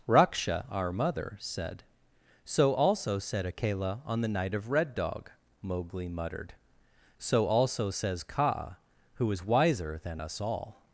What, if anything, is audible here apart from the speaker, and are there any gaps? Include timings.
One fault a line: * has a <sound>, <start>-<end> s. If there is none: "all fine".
all fine